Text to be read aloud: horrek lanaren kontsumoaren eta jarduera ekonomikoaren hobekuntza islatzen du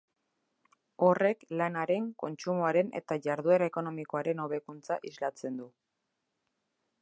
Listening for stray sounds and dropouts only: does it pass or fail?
pass